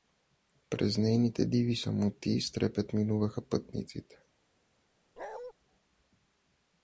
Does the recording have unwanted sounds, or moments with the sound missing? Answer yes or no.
yes